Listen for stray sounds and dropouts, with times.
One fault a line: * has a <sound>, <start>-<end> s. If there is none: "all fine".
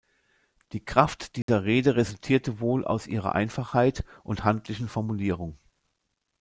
* has a dropout, 1.4-1.5 s